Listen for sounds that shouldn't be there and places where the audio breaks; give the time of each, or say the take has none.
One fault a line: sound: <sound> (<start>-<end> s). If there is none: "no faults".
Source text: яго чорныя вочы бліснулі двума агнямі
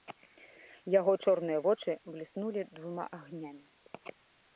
no faults